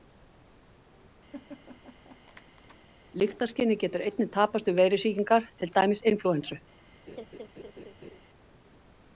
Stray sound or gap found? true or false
true